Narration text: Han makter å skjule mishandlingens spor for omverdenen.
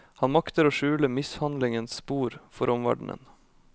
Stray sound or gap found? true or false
false